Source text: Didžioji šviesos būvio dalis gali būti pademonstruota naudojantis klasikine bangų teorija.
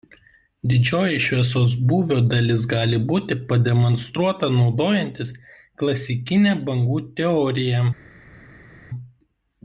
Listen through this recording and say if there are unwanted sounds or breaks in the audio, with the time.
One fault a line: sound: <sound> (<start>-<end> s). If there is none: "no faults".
no faults